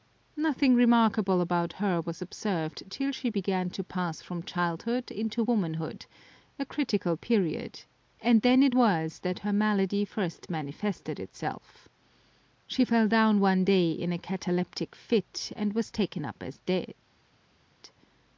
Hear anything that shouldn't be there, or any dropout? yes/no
no